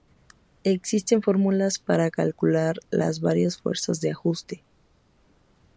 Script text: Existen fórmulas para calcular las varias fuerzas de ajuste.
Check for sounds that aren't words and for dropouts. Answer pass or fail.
pass